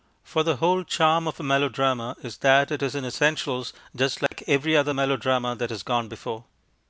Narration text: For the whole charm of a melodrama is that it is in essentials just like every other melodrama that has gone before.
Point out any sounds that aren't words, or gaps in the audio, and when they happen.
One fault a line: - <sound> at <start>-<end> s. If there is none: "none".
- dropout at 4.3-4.3 s